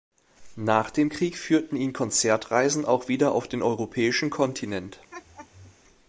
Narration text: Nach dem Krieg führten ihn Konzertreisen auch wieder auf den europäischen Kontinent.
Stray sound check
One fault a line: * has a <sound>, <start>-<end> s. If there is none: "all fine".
* has a laugh, 5.1-5.8 s